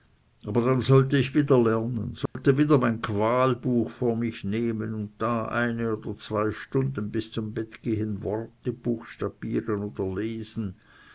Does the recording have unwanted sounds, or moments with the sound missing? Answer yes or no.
yes